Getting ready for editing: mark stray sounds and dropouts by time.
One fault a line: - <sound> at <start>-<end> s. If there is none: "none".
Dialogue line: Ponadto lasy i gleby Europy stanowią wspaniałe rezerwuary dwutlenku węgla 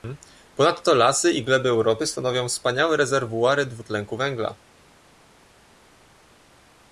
none